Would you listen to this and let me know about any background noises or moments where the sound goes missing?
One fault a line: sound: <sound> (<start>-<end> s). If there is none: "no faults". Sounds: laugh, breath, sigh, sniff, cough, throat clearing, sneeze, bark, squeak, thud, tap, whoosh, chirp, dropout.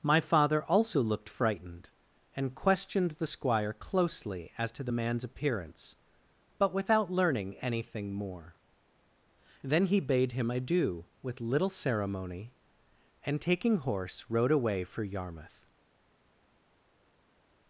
no faults